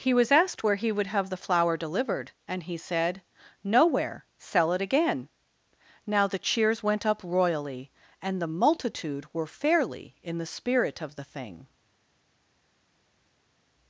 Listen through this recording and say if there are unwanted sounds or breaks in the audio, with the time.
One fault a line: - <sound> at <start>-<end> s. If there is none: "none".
none